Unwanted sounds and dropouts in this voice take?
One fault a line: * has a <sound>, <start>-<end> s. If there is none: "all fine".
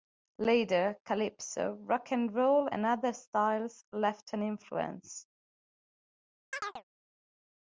* has a chirp, 6.5-6.8 s